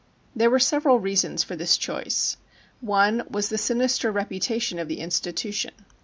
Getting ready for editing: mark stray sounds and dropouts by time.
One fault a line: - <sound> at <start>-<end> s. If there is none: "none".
none